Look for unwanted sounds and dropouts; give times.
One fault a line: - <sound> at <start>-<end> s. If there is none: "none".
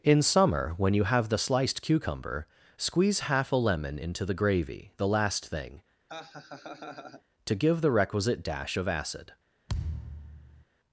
- laugh at 6.1-7.2 s
- thud at 9.7-10.6 s